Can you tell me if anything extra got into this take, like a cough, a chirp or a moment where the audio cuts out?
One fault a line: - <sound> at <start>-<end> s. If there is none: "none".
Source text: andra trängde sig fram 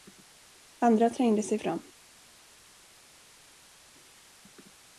none